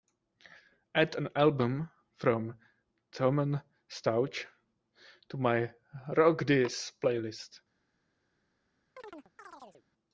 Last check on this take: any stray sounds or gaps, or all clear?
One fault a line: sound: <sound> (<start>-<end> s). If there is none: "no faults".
sound: chirp (9.0-9.9 s)